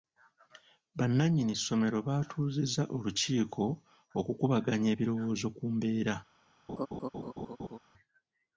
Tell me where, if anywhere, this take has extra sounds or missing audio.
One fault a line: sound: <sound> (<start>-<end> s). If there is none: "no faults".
sound: laugh (6.7-7.8 s)